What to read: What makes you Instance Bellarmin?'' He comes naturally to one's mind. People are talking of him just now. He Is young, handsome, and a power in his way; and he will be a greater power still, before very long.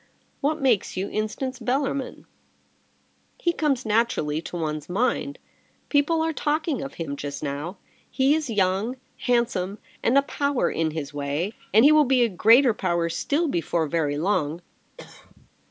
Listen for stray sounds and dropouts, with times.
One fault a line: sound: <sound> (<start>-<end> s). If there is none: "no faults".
sound: cough (15.0-15.5 s)